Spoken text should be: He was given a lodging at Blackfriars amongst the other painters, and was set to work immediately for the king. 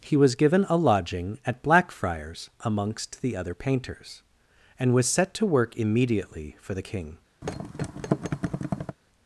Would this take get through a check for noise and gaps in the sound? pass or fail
fail